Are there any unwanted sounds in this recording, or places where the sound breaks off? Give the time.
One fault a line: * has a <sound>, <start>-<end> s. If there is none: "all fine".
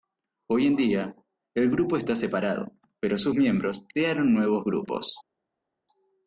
all fine